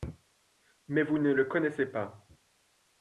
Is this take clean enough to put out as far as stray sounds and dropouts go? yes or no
yes